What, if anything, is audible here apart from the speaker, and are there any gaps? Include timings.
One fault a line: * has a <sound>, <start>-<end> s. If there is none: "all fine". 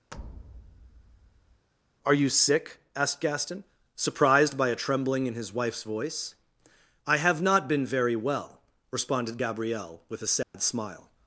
* has a thud, 0.1-1.7 s
* has a dropout, 10.4-10.5 s